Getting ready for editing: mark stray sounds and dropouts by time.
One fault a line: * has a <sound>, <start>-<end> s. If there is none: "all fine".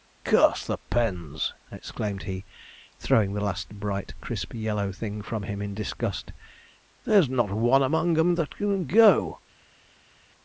all fine